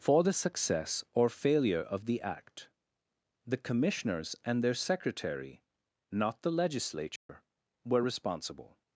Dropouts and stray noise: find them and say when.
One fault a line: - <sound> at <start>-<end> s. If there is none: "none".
- dropout at 7.2-7.3 s